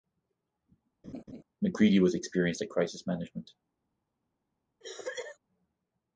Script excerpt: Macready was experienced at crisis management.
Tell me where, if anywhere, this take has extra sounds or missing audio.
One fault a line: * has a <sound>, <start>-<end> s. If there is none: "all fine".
* has a laugh, 1.0-1.4 s
* has a cough, 4.8-5.4 s